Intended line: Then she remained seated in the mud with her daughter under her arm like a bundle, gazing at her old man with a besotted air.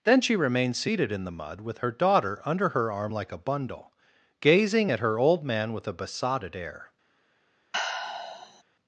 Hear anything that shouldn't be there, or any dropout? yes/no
yes